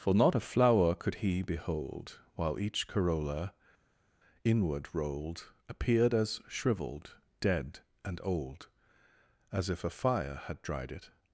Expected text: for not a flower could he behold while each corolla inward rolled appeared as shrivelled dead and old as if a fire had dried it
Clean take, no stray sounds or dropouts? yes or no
yes